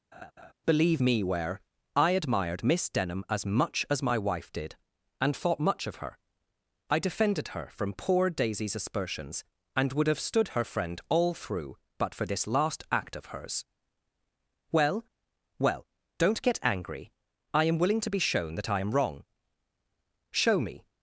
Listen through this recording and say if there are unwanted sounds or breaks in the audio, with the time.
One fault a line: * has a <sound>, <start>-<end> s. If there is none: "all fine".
* has a laugh, 0.1-0.5 s